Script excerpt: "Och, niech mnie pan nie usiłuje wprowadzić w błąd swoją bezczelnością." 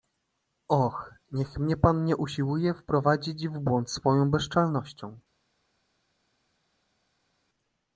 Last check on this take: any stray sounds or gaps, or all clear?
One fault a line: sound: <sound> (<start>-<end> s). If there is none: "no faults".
no faults